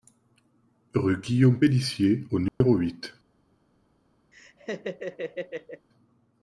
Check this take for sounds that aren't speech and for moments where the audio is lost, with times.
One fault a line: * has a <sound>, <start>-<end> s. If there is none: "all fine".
* has a dropout, 2.5-2.6 s
* has a laugh, 4.3-5.9 s